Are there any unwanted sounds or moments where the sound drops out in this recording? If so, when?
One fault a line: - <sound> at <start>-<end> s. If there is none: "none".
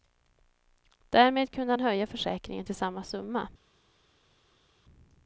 none